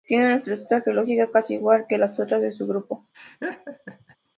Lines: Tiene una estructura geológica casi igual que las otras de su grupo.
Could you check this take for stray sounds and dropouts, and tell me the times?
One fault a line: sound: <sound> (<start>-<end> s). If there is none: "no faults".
sound: laugh (3.1-4.2 s)